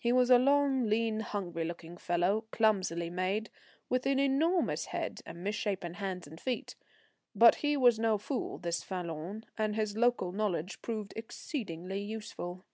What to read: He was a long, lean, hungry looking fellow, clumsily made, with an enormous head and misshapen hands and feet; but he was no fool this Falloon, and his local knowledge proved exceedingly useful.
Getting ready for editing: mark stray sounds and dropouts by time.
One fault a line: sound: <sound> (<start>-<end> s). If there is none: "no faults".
no faults